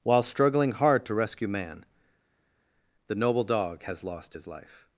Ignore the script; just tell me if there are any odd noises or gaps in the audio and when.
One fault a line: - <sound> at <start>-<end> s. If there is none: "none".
none